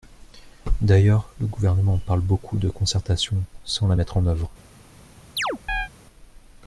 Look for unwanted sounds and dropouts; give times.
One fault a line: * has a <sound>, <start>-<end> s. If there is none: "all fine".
* has a chirp, 5.4-5.9 s